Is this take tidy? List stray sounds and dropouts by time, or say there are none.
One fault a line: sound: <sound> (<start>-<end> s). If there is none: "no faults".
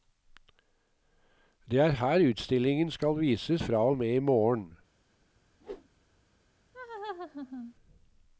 sound: whoosh (5.6-5.9 s)
sound: laugh (6.7-7.7 s)